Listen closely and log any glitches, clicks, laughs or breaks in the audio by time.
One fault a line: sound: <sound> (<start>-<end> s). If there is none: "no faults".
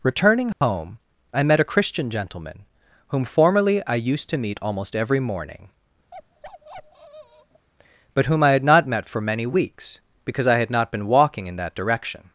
sound: dropout (0.5-0.6 s)
sound: bark (6.1-7.7 s)